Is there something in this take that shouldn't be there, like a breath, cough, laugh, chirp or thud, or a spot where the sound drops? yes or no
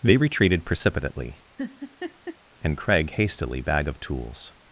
yes